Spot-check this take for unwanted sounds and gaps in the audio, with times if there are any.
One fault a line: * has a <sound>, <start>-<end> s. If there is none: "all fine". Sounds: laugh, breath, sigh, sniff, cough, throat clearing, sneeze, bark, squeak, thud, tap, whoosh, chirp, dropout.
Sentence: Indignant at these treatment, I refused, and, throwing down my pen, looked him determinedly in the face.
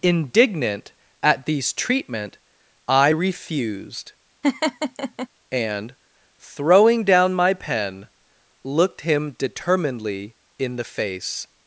* has a laugh, 4.4-5.3 s